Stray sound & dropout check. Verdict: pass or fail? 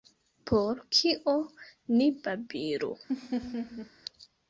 fail